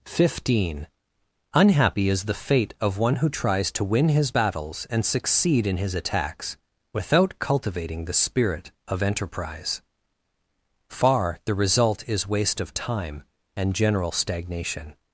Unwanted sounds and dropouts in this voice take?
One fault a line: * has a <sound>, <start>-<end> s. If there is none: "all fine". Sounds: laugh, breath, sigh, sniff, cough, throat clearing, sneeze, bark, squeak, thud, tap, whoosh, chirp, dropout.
all fine